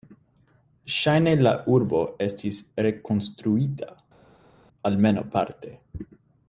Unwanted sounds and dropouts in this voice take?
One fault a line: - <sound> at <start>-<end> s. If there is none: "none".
none